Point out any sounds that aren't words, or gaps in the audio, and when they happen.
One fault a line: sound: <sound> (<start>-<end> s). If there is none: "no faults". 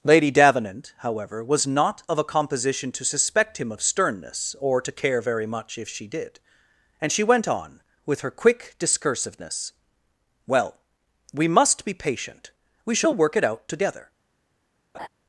sound: laugh (14.9-15.1 s)